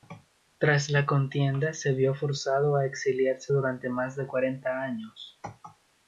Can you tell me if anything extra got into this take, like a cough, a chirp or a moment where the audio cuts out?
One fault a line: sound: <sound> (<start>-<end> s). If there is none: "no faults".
no faults